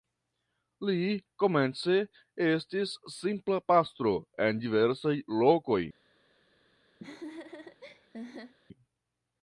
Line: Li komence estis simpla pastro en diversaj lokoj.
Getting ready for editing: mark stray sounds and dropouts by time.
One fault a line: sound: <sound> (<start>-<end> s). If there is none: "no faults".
sound: laugh (7.0-8.5 s)